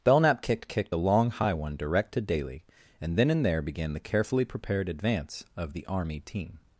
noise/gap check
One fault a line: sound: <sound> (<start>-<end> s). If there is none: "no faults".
no faults